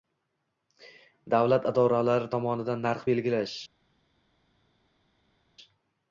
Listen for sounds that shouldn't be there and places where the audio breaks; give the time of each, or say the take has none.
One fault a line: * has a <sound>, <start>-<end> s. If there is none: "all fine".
all fine